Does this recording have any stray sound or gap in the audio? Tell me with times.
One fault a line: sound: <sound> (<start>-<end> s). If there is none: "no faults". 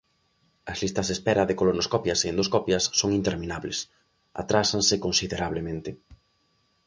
no faults